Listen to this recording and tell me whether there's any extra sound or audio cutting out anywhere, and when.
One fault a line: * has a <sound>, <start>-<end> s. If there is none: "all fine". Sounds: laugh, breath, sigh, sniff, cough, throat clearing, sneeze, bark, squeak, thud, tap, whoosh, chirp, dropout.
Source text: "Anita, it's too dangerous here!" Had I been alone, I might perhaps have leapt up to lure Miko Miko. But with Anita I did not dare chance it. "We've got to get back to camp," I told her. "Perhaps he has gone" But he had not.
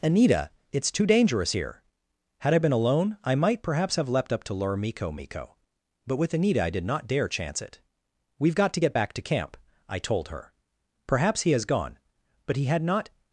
all fine